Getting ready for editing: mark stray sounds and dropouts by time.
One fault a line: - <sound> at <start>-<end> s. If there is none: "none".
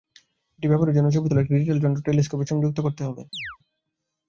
- chirp at 3.3-3.6 s